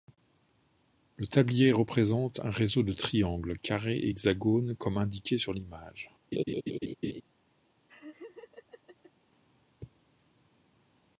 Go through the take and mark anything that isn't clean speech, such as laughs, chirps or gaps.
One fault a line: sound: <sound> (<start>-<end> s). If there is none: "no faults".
sound: laugh (6.3-7.2 s)
sound: laugh (7.9-9.1 s)